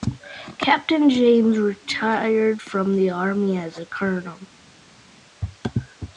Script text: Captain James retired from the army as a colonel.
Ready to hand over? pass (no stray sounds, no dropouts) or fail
pass